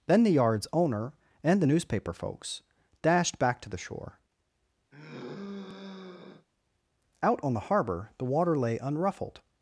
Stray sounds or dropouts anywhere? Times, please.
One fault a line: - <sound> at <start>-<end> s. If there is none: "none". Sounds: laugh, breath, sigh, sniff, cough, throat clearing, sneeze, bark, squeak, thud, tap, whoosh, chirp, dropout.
- sigh at 4.9-6.5 s